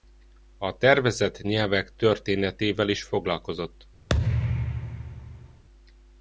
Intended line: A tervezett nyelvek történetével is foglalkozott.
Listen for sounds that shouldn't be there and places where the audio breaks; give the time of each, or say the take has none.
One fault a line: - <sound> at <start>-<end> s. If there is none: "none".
- thud at 4.1-5.6 s